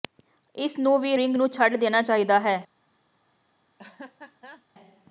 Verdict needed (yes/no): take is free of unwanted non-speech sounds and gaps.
no